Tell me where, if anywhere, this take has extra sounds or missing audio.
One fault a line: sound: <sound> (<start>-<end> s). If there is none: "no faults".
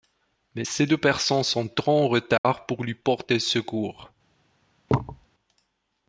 sound: dropout (2.4-2.4 s)
sound: thud (4.9-5.3 s)